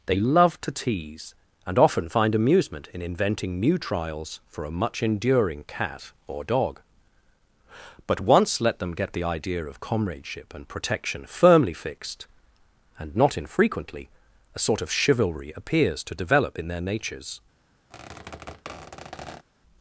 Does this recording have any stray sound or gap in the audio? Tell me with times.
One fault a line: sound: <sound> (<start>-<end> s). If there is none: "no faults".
sound: squeak (17.9-19.4 s)